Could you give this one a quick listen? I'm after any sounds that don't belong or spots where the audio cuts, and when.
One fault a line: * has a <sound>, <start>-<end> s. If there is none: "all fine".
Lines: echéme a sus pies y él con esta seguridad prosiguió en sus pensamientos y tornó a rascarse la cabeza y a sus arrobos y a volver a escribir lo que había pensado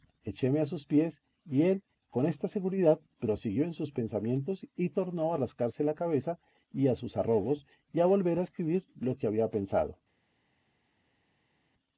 all fine